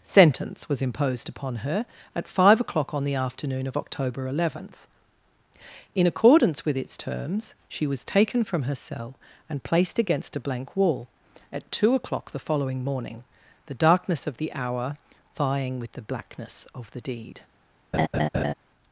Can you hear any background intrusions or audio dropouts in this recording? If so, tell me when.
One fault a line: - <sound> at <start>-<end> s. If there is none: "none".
- laugh at 17.9-18.5 s